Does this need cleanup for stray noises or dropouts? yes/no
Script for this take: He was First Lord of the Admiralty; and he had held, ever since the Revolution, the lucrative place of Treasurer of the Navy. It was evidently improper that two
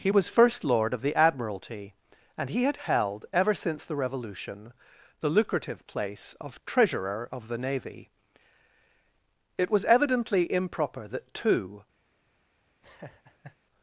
yes